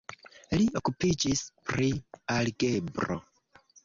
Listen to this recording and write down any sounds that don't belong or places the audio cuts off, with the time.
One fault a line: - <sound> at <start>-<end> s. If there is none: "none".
none